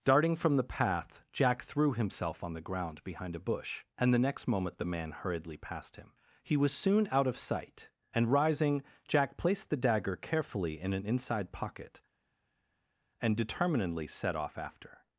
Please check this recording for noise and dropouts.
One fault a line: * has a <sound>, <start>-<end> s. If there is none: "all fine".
all fine